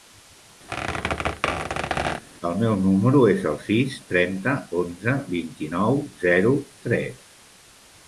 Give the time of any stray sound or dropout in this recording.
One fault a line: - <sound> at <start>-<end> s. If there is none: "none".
- squeak at 0.7-2.2 s